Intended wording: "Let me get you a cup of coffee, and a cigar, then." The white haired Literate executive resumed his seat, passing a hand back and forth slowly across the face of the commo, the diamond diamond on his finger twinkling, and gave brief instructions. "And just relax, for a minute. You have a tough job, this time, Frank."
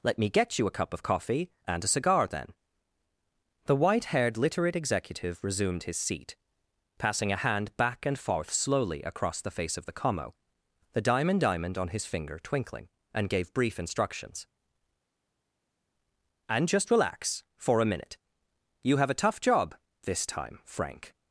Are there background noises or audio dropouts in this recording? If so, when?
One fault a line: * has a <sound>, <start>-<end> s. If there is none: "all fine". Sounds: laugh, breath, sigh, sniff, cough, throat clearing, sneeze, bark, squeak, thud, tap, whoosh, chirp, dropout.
all fine